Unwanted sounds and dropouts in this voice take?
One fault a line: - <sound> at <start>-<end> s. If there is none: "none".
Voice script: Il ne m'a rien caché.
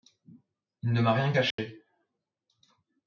- dropout at 1.5-1.6 s